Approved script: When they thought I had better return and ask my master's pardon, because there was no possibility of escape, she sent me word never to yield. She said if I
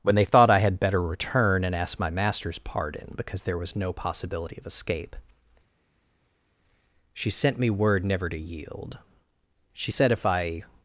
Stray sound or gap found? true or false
false